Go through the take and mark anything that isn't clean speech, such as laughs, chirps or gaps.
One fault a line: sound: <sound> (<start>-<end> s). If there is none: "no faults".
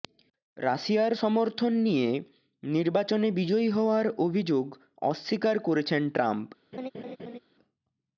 sound: laugh (6.7-7.4 s)